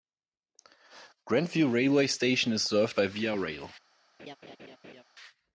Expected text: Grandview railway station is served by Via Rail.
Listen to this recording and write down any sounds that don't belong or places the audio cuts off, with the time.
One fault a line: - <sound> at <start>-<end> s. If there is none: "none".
- laugh at 4.2-5.0 s